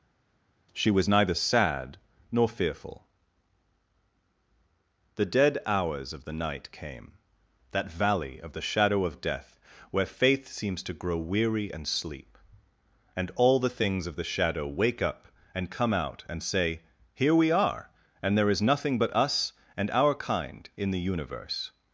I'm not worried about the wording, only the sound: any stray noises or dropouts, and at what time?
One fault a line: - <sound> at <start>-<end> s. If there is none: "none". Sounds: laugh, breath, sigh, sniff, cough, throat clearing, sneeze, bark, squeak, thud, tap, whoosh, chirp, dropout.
none